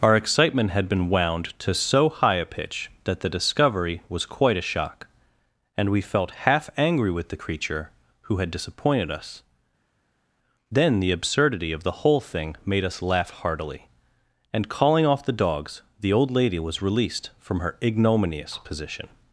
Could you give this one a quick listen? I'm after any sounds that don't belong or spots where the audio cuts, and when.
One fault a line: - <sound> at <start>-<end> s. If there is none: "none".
none